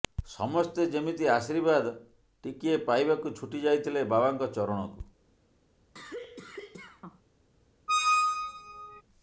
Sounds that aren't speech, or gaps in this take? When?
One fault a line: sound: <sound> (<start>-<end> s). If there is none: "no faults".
sound: cough (5.9-7.2 s)
sound: squeak (7.9-9.0 s)